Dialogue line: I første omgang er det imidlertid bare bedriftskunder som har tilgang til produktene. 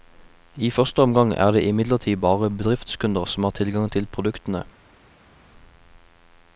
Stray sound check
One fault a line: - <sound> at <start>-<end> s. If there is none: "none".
none